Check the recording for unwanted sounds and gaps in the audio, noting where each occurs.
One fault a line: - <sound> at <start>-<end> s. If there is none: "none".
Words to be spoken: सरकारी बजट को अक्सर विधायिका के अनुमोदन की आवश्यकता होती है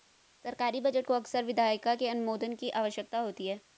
none